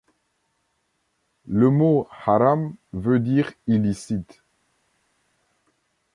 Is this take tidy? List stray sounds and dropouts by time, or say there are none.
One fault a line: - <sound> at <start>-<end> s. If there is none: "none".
none